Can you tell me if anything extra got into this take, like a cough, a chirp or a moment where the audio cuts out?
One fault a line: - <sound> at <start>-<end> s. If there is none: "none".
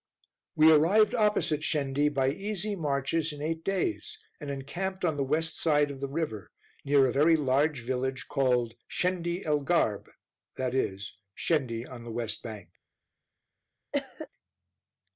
- cough at 13.9-14.3 s